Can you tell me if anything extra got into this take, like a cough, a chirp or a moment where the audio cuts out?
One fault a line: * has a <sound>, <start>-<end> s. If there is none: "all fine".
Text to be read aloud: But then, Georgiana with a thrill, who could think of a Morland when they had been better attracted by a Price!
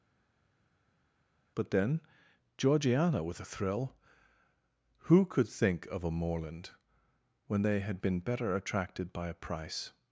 all fine